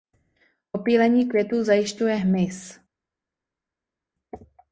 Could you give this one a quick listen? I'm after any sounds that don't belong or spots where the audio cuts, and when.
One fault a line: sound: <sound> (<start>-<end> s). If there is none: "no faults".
no faults